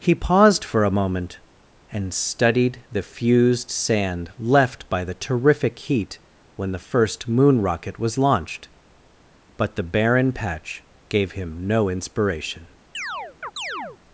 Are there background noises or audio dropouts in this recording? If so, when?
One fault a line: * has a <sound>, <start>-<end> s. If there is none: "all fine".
* has a chirp, 12.9-14.0 s